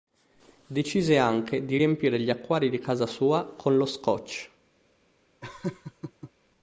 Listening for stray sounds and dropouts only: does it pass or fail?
fail